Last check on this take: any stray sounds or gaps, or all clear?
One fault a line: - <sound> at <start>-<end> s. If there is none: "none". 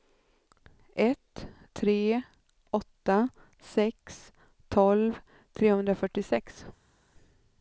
none